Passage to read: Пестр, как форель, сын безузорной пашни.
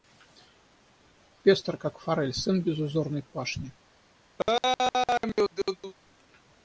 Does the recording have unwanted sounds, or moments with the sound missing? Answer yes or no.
yes